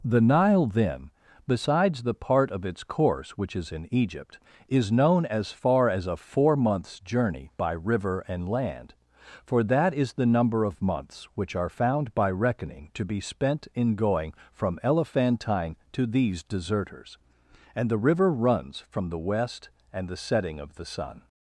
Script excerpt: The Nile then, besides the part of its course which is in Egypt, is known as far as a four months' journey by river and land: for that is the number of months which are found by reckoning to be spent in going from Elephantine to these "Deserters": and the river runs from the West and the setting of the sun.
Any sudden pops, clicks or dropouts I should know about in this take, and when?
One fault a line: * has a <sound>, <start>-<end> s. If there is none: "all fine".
all fine